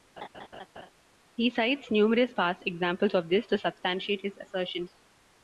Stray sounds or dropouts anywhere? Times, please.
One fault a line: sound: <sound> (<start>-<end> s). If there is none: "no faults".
sound: laugh (0.2-0.9 s)